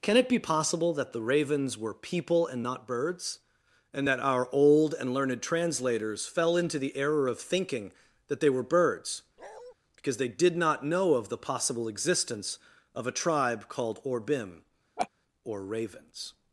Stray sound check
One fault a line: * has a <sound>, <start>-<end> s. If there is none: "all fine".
* has a bark, 9.4-9.7 s
* has a laugh, 15.0-15.1 s